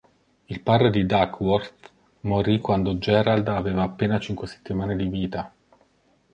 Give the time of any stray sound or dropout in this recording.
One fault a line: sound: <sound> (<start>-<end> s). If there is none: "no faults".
no faults